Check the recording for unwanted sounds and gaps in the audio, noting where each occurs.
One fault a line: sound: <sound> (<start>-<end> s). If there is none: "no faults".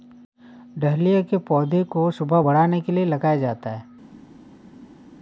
no faults